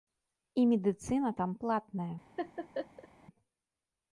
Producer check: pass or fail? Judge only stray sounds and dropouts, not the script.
fail